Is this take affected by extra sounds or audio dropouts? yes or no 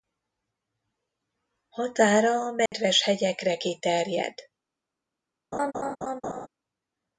yes